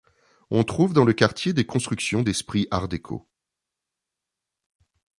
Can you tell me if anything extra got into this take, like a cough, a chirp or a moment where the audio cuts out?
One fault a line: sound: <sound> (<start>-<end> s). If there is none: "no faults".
no faults